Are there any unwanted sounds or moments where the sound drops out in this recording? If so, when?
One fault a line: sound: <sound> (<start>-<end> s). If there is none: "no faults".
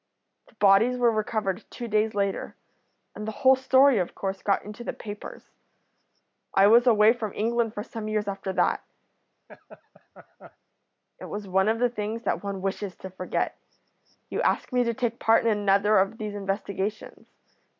sound: laugh (9.5-10.6 s)